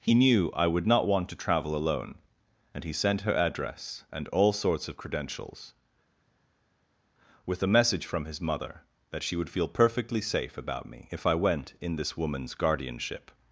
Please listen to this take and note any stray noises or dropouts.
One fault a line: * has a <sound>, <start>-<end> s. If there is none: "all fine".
all fine